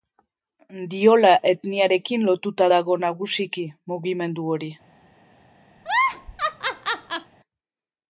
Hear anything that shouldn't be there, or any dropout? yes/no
yes